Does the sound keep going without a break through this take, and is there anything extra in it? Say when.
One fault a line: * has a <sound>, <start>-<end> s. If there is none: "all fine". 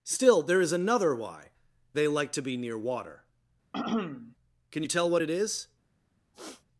* has a throat clearing, 3.7-4.4 s
* has a throat clearing, 6.3-6.7 s